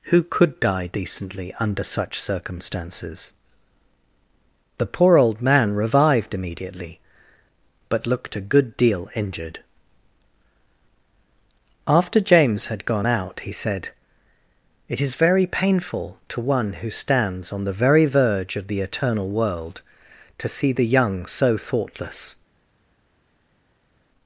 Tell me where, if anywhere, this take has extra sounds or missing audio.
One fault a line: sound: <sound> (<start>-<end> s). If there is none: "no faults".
no faults